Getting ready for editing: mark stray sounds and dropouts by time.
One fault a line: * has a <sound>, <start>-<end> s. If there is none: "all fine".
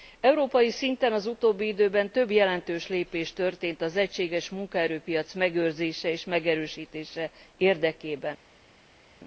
all fine